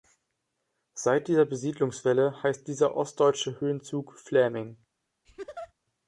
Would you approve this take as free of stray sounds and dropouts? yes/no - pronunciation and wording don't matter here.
no